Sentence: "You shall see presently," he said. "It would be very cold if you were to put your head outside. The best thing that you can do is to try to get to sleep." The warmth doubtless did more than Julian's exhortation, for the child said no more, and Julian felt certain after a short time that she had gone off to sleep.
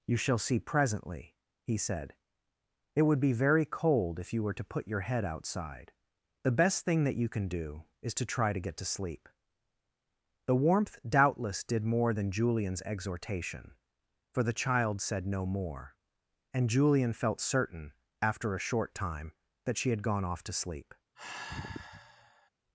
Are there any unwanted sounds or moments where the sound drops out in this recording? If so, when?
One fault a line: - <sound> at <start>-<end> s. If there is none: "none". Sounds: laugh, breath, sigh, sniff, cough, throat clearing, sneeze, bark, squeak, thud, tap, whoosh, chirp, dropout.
- sigh at 21.1-22.5 s